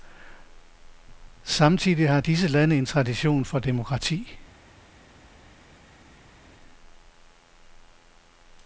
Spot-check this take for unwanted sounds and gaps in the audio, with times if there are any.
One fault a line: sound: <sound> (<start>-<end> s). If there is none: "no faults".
no faults